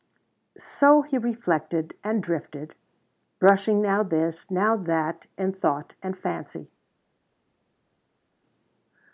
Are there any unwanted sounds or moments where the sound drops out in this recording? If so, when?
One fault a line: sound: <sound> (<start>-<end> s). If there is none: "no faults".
no faults